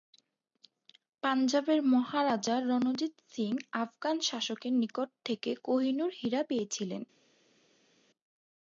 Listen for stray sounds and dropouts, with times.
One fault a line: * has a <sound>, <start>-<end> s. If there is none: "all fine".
all fine